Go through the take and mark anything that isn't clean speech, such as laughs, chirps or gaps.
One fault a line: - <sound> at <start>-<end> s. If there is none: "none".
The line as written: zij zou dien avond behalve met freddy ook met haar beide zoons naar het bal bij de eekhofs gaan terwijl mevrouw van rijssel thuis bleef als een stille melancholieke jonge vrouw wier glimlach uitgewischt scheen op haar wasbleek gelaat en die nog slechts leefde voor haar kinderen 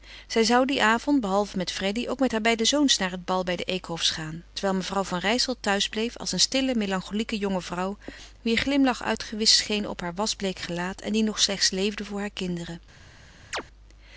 - chirp at 13.5-13.6 s